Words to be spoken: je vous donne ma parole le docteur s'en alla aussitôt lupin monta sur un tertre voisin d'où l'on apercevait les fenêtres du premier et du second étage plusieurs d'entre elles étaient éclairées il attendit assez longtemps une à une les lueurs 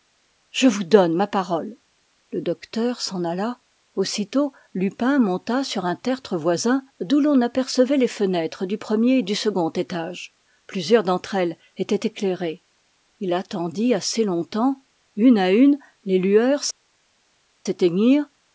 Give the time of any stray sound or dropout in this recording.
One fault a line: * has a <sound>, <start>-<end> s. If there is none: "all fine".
all fine